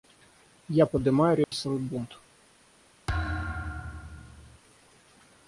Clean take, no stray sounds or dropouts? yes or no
no